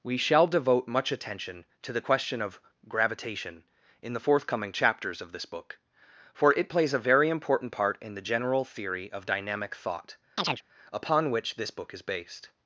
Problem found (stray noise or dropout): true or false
true